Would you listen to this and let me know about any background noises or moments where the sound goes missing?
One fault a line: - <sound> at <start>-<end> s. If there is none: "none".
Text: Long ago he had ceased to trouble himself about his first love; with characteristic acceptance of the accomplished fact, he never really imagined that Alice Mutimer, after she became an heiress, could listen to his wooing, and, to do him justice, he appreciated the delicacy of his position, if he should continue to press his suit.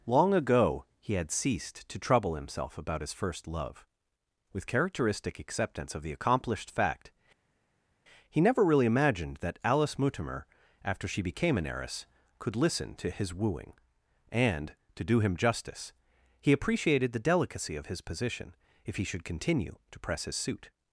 none